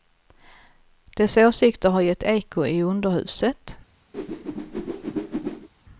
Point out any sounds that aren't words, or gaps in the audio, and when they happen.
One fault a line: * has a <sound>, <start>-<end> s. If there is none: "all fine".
* has a whoosh, 4.1-5.7 s